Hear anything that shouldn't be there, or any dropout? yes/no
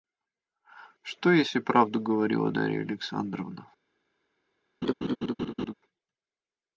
yes